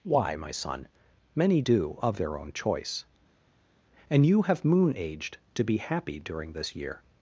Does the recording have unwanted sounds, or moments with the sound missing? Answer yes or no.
no